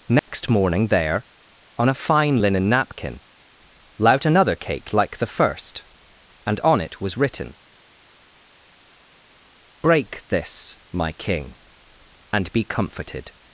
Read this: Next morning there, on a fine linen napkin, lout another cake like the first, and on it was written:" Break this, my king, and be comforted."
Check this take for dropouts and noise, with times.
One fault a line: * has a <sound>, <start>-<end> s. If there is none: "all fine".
* has a dropout, 0.2-0.3 s